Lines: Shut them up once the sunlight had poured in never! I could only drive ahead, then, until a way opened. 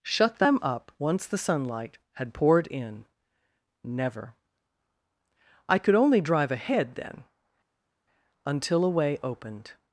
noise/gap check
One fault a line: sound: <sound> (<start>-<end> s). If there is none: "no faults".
no faults